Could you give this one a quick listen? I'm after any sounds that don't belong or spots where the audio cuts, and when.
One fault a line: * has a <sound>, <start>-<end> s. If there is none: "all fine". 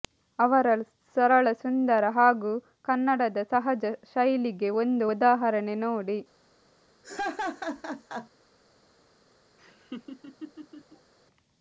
* has a laugh, 7.0-8.3 s
* has a laugh, 9.6-11.1 s